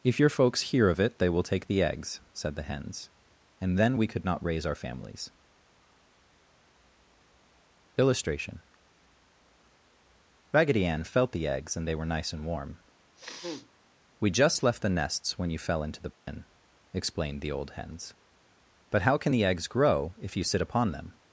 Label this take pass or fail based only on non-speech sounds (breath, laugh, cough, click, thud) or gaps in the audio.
fail